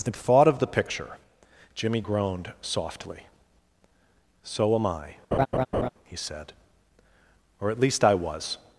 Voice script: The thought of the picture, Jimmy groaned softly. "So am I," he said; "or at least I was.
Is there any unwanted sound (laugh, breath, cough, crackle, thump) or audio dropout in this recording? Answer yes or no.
yes